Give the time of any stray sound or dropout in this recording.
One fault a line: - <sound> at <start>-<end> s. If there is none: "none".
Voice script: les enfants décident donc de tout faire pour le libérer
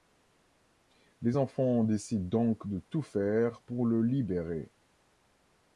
none